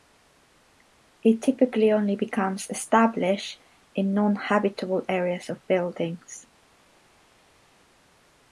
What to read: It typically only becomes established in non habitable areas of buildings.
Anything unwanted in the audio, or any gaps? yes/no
no